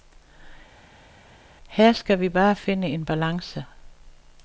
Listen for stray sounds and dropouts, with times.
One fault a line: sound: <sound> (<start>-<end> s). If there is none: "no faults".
no faults